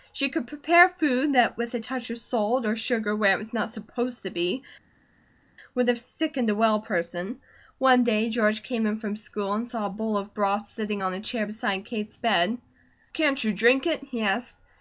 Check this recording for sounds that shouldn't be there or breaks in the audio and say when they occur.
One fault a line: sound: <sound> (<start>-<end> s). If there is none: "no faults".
no faults